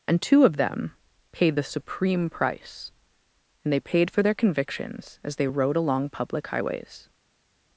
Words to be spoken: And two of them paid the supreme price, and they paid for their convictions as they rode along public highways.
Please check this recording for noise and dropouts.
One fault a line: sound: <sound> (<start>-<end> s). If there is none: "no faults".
no faults